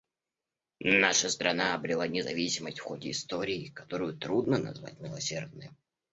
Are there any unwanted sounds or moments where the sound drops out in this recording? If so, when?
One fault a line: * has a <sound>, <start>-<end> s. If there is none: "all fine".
all fine